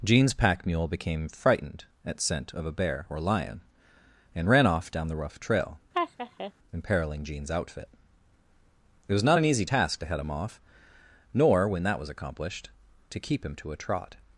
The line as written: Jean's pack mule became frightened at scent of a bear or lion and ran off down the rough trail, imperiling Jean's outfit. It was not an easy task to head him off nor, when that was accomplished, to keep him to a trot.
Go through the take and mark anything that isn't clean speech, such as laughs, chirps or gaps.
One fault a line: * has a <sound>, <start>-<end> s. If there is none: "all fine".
* has a laugh, 5.9-6.5 s